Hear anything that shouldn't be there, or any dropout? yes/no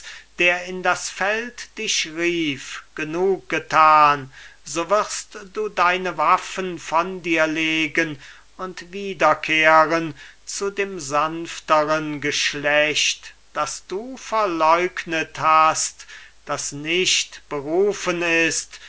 no